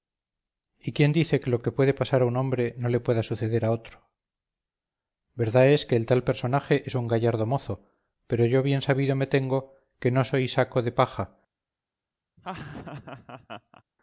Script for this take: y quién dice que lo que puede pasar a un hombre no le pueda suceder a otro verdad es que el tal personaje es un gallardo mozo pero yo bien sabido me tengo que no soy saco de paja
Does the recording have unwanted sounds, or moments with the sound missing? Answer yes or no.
yes